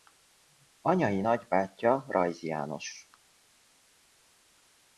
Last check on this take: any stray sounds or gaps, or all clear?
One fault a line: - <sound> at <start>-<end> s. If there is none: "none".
none